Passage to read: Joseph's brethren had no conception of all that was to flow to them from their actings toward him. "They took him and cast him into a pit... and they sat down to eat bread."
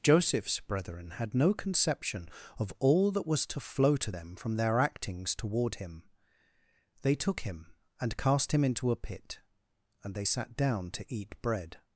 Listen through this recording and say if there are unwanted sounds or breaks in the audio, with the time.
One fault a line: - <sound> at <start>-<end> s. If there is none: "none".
none